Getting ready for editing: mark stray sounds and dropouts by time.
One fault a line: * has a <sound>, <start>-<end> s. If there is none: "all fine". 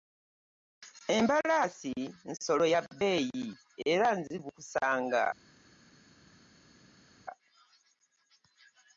all fine